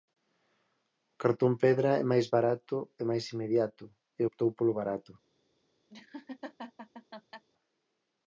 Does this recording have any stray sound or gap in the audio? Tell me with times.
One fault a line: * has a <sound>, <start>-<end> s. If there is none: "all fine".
* has a laugh, 5.9-7.4 s